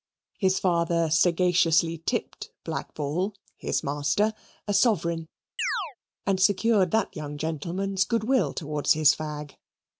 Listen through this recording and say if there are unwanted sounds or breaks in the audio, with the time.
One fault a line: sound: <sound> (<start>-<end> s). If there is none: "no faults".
sound: chirp (5.6-6.0 s)